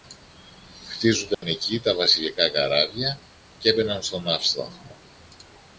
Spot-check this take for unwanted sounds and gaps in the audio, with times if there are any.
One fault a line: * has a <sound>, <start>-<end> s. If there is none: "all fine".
* has a dropout, 1.3-1.4 s